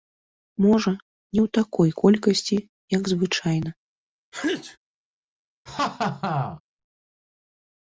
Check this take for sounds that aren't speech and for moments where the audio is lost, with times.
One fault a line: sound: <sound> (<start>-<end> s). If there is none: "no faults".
sound: sneeze (4.3-4.8 s)
sound: laugh (5.7-6.6 s)